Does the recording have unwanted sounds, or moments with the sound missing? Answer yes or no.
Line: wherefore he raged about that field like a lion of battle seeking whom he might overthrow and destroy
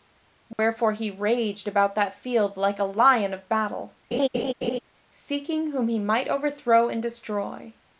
yes